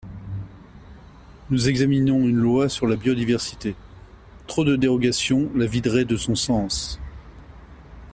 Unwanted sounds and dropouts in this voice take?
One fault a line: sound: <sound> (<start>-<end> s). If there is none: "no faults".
no faults